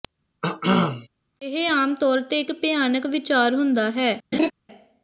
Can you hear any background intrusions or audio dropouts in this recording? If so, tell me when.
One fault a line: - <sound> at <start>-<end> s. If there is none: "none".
- cough at 0.4-1.1 s
- laugh at 4.3-4.5 s